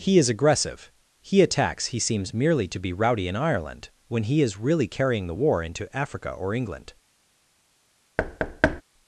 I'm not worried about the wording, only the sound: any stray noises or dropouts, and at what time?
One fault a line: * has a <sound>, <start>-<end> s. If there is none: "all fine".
* has a thud, 8.2-8.8 s